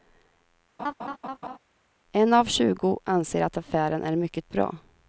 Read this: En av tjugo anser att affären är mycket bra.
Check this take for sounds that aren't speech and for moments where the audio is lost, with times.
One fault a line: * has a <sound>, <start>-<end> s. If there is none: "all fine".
* has a laugh, 0.8-1.6 s